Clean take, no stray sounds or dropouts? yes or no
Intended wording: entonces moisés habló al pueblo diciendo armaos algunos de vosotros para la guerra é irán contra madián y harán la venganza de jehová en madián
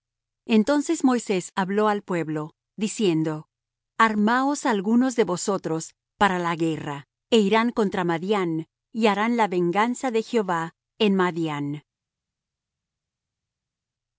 yes